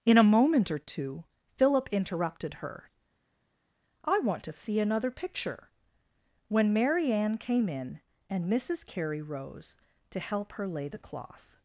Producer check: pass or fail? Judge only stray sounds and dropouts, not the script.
pass